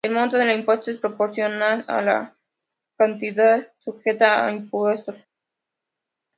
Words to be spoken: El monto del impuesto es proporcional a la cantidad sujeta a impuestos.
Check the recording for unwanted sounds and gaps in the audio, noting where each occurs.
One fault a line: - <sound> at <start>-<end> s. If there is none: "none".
none